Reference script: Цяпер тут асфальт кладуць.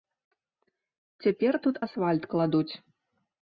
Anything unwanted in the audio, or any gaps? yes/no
no